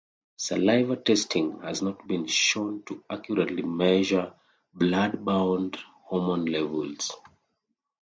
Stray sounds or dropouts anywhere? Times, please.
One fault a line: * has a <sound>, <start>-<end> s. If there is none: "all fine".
all fine